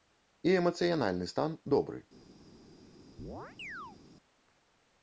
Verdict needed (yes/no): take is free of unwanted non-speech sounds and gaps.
no